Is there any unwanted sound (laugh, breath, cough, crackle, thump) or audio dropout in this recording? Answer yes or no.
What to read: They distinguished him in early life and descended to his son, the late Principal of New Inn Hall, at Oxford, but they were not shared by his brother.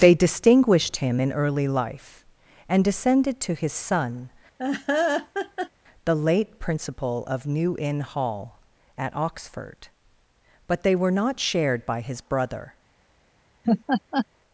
yes